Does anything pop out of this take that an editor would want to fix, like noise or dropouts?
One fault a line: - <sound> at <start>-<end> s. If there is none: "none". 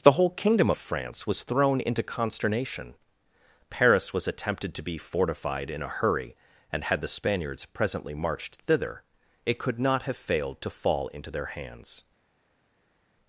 none